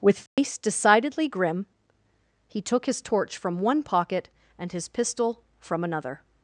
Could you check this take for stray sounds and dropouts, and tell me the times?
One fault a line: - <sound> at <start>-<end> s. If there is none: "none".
- dropout at 0.3-0.4 s